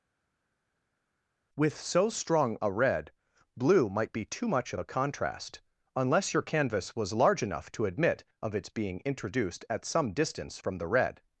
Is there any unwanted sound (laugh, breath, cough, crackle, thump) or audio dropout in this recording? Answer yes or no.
no